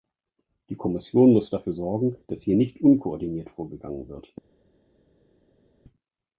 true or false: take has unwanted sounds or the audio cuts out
false